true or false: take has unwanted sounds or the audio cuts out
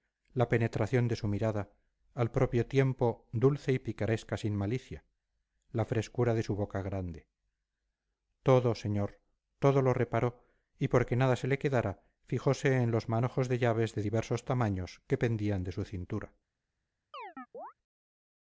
true